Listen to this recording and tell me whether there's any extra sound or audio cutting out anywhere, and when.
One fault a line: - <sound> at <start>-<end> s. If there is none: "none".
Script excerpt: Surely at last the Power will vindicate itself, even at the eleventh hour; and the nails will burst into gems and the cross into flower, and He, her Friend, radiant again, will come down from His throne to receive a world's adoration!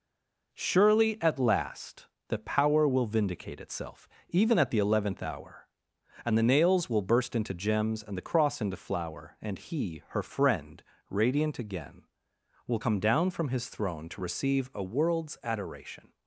none